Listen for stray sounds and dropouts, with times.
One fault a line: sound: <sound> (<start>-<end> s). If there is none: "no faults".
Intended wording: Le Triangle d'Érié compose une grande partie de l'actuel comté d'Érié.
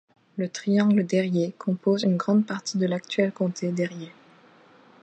no faults